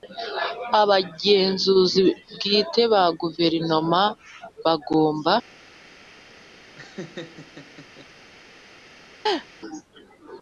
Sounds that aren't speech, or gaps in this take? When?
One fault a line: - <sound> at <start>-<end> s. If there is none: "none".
- laugh at 6.7-8.1 s
- laugh at 9.3-9.5 s